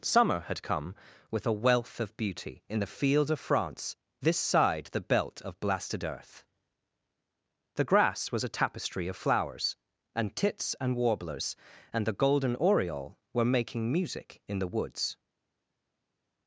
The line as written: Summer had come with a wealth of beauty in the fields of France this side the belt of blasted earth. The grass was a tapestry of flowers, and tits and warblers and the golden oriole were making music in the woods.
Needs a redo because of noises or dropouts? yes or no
no